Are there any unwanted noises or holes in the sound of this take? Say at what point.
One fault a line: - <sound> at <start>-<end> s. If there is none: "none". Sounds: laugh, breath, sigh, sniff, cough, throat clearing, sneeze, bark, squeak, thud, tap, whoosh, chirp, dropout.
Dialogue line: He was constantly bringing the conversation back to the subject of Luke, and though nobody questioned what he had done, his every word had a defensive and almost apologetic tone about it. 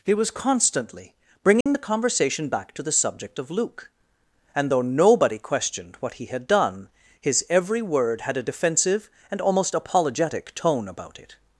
- dropout at 1.6-1.7 s